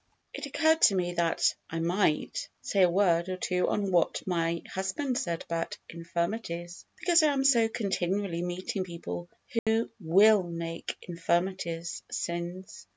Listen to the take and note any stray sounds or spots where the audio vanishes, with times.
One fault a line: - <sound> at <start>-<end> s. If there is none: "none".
- dropout at 9.6-9.7 s